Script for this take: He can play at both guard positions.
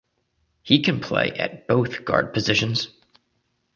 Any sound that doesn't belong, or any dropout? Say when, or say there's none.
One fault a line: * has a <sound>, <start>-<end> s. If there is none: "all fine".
all fine